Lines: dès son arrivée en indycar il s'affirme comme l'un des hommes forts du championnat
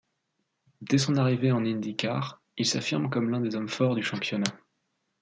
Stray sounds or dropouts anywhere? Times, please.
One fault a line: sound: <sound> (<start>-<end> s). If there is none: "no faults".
no faults